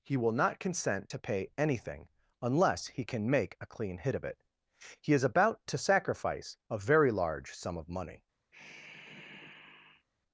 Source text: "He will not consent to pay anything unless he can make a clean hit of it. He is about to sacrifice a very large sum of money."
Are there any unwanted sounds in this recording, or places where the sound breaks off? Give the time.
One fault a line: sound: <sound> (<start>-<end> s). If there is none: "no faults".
sound: sigh (8.5-10.1 s)